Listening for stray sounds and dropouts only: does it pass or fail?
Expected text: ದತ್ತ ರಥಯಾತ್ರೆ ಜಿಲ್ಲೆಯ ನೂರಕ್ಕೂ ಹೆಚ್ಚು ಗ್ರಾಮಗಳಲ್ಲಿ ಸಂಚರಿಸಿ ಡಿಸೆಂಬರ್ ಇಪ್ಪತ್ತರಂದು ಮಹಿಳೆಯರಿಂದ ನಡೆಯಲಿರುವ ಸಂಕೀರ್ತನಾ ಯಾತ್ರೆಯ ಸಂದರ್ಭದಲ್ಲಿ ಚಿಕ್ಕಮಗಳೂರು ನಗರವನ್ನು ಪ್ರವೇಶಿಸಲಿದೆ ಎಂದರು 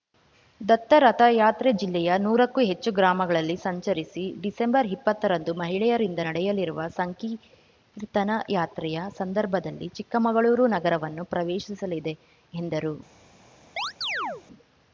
fail